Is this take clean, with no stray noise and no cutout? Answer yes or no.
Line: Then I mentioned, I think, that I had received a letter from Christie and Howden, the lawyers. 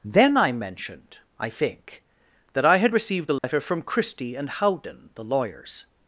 no